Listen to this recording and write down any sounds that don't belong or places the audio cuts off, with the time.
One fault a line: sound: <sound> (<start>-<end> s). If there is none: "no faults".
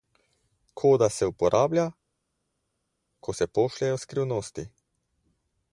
no faults